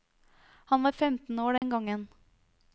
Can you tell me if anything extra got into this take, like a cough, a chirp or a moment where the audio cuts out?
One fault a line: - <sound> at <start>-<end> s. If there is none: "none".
- dropout at 1.6-1.6 s